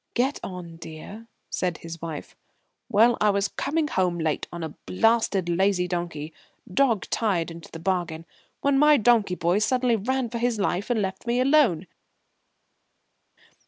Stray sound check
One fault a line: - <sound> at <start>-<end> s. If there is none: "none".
none